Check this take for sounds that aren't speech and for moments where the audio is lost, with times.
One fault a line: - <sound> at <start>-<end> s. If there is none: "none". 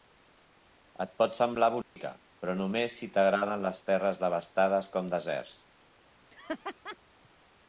- dropout at 1.8-2.0 s
- laugh at 6.3-7.0 s